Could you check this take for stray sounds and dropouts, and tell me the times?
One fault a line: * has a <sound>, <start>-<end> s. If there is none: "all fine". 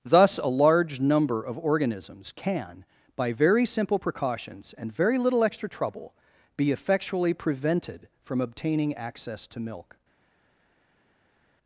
all fine